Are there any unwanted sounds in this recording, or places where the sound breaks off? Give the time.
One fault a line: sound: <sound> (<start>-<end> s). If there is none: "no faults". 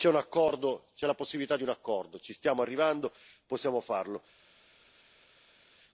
no faults